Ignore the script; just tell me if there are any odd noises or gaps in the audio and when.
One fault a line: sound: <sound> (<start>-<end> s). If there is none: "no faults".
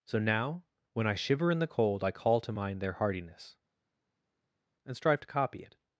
no faults